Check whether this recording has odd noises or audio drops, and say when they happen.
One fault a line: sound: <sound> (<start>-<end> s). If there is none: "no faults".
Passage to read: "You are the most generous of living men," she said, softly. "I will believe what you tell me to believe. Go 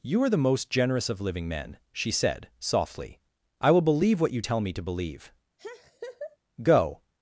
sound: laugh (5.6-6.4 s)